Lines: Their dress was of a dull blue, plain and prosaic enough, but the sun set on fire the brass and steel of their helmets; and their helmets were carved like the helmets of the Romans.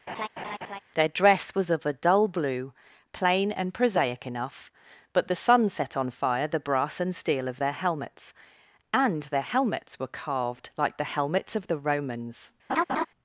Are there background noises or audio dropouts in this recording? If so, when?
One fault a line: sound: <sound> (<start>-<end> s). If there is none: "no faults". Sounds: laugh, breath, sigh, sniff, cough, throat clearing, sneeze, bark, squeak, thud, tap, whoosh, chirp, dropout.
sound: laugh (0.1-0.8 s)
sound: laugh (12.7-13.1 s)